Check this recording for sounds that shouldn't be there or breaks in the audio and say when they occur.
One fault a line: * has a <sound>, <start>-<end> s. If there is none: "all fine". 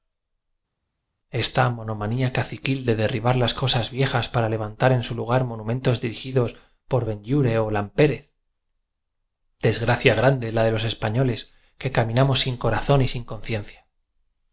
all fine